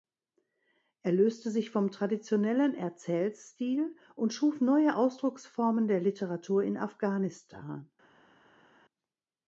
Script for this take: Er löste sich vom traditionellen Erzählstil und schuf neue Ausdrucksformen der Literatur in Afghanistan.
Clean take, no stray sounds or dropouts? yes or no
yes